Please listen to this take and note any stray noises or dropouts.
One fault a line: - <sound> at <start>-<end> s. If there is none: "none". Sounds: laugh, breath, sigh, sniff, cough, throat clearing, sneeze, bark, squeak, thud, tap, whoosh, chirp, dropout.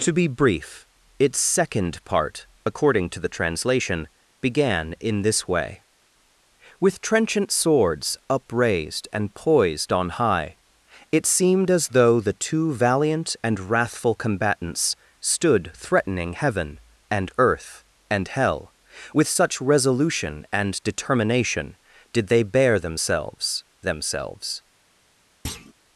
- thud at 25.4-25.7 s